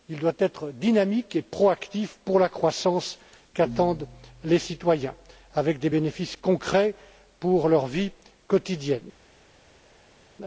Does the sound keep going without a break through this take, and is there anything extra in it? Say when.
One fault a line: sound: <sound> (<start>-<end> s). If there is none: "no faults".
no faults